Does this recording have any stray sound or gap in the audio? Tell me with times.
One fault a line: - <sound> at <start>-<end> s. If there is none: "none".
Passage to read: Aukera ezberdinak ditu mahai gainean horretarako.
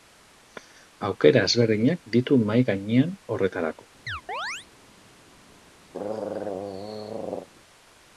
- chirp at 4.1-4.7 s
- throat clearing at 5.9-7.5 s